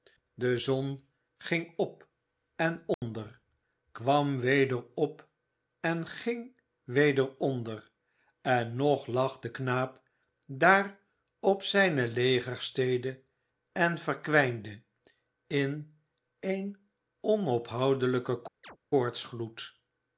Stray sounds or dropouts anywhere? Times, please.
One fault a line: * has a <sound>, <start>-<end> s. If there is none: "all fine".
* has a dropout, 2.9-3.0 s
* has a chirp, 18.6-18.8 s